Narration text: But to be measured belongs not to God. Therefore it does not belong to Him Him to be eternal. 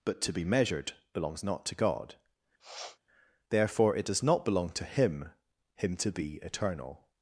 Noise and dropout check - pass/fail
fail